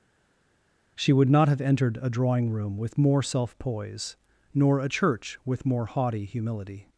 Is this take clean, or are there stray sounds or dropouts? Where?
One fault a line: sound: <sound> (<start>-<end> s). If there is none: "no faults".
no faults